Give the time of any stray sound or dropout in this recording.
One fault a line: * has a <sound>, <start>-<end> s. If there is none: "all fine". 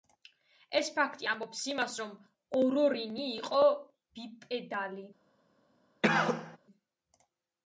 * has a cough, 6.0-6.6 s